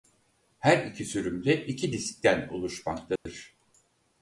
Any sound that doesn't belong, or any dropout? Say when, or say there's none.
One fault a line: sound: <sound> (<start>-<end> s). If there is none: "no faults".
sound: dropout (3.2-3.3 s)